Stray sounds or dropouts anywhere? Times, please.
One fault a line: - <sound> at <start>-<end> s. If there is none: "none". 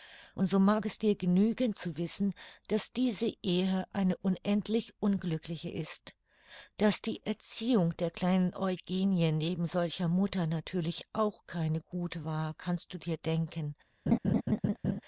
- laugh at 14.1-15.0 s